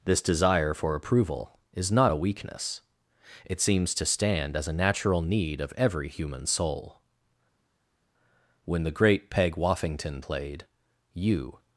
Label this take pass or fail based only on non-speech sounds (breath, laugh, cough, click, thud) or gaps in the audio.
pass